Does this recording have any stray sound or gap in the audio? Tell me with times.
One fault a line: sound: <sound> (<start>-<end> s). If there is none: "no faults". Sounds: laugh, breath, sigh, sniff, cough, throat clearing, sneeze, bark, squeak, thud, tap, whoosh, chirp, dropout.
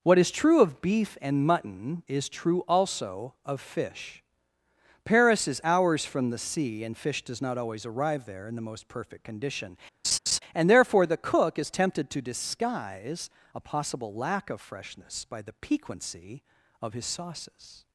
sound: laugh (10.0-10.4 s)